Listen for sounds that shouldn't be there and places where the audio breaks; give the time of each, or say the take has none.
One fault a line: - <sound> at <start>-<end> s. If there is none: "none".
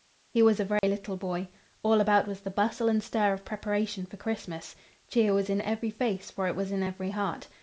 - dropout at 0.8-0.8 s